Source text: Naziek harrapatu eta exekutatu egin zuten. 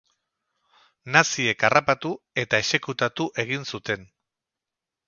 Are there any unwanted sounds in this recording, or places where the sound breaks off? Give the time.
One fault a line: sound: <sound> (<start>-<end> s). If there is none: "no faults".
no faults